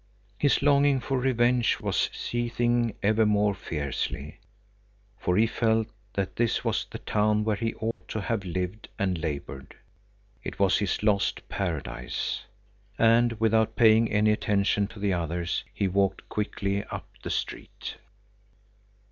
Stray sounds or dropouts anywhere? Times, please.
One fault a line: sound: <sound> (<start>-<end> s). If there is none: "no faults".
sound: dropout (7.9-8.0 s)